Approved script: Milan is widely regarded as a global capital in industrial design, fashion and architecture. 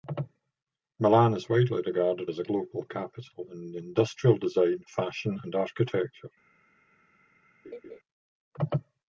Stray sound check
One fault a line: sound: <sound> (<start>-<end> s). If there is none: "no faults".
sound: laugh (7.6-8.0 s)